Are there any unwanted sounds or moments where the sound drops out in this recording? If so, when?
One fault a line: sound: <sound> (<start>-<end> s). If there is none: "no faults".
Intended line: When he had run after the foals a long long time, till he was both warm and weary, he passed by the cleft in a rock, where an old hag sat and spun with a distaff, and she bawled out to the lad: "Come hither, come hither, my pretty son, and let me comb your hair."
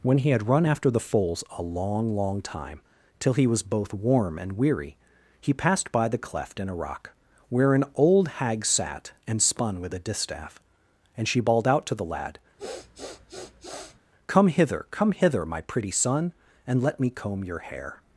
sound: sniff (12.6-14.0 s)